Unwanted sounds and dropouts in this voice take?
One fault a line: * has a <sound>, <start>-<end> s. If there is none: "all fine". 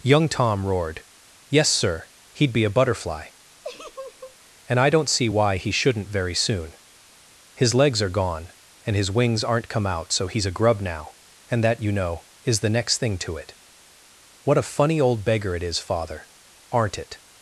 * has a laugh, 3.6-4.4 s